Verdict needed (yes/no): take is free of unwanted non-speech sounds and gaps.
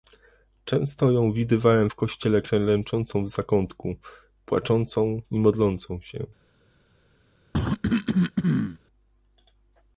no